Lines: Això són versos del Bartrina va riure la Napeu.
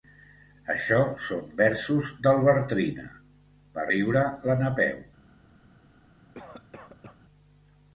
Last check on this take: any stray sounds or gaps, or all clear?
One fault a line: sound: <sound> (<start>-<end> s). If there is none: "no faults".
sound: cough (6.3-7.2 s)